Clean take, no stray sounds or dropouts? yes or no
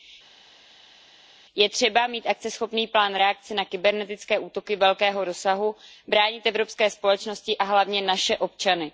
yes